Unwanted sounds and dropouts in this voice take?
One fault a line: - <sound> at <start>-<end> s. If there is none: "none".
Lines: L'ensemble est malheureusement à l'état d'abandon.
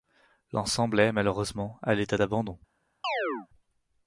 - chirp at 3.0-3.5 s